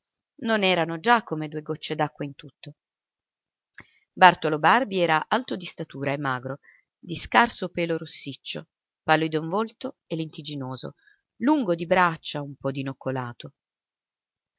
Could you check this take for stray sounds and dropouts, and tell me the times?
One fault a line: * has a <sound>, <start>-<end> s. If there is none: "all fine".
all fine